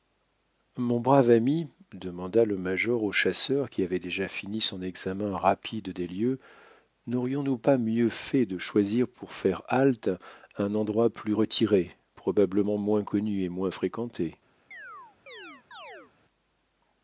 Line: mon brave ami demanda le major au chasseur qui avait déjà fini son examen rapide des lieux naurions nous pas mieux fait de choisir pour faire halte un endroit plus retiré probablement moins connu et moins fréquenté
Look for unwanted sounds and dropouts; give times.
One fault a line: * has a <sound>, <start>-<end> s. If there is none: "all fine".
* has a chirp, 14.7-16.1 s